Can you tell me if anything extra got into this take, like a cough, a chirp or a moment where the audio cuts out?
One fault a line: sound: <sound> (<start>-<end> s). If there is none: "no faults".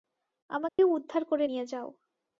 sound: dropout (0.7-0.8 s)